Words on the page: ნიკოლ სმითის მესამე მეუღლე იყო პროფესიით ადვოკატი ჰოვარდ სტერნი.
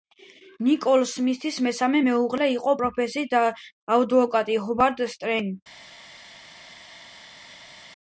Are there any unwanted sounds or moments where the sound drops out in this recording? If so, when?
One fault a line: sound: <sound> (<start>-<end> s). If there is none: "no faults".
no faults